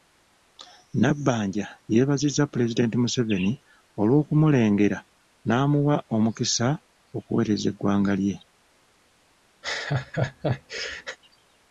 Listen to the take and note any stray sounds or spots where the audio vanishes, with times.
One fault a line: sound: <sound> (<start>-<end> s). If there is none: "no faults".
sound: laugh (9.6-11.2 s)